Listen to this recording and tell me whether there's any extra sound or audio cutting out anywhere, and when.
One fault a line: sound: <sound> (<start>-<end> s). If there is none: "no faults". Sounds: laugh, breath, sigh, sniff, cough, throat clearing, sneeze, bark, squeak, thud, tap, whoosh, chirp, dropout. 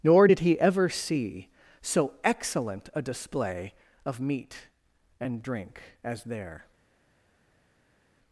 no faults